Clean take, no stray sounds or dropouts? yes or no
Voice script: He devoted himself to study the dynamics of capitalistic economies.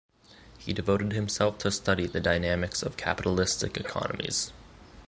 yes